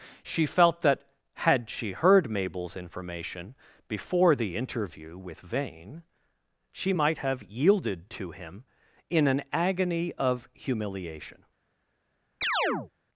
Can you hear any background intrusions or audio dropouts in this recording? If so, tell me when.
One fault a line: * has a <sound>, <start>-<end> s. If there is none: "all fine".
* has a chirp, 12.4-12.9 s